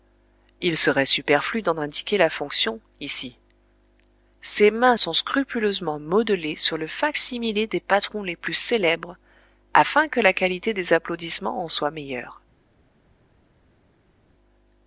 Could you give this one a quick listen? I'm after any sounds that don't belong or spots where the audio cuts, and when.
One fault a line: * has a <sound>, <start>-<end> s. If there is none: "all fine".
all fine